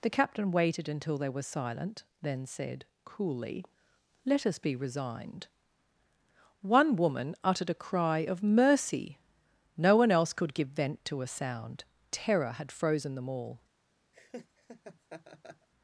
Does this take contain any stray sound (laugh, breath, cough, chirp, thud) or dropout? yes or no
yes